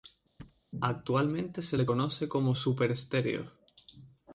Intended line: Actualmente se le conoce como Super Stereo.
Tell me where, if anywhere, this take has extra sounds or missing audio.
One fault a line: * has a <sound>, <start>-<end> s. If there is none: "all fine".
* has a thud, 0.4-0.6 s